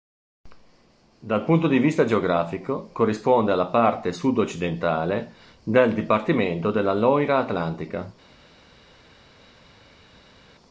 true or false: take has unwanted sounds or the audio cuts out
false